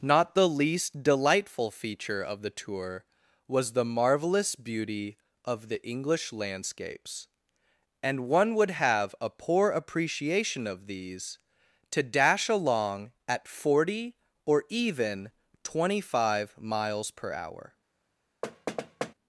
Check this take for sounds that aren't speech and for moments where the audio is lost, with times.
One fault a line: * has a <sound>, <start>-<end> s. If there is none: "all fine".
* has a thud, 18.4-19.1 s